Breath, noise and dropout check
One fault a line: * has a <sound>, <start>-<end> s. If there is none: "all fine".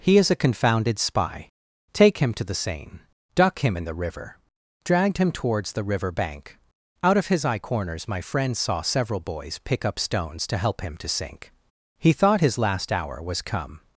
all fine